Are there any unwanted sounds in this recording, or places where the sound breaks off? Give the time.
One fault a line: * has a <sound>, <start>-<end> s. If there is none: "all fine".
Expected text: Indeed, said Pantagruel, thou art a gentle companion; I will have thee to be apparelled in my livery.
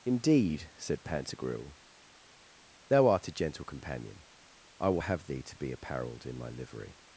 all fine